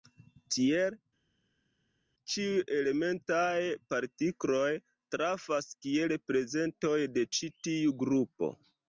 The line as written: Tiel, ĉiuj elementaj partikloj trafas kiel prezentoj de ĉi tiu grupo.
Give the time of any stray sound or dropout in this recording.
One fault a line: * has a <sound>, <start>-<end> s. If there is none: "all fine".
all fine